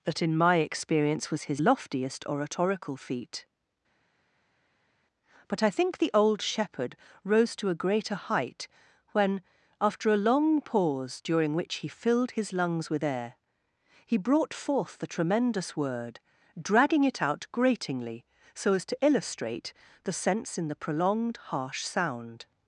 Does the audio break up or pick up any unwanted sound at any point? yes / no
no